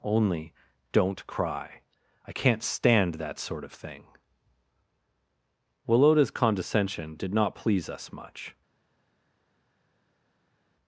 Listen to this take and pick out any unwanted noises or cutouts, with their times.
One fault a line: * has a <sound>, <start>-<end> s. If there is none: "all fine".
all fine